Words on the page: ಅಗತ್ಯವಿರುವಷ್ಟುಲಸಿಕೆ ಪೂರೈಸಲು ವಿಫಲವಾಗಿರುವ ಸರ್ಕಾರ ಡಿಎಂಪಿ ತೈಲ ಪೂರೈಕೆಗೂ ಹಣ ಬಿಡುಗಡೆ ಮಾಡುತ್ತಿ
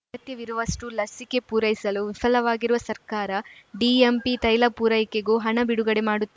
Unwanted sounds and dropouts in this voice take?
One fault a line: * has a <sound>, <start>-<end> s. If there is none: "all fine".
all fine